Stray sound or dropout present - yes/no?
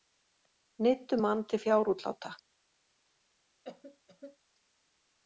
yes